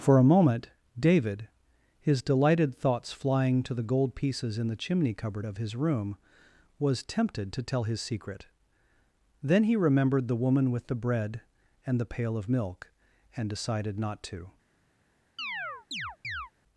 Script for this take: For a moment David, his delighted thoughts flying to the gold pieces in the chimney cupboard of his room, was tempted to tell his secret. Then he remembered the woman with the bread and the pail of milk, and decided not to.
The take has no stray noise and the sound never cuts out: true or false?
false